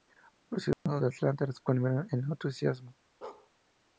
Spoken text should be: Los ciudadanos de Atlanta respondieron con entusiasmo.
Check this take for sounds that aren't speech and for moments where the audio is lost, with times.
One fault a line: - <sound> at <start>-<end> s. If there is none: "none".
- dropout at 0.7-0.9 s
- bark at 3.2-3.5 s